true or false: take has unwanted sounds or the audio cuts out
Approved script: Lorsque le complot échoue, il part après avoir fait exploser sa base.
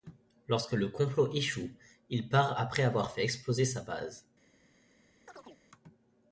true